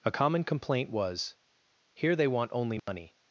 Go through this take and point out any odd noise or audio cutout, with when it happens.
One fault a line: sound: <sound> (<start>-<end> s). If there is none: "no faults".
sound: dropout (2.8-2.9 s)